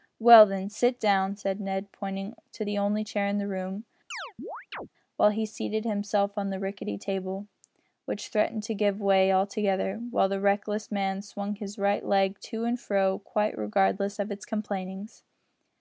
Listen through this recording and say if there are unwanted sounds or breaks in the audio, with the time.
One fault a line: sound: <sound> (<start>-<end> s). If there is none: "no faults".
sound: chirp (4.1-4.9 s)